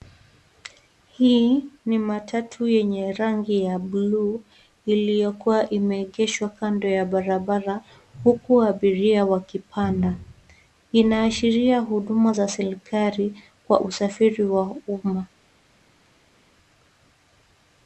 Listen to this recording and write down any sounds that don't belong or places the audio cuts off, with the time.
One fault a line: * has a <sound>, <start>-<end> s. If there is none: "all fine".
all fine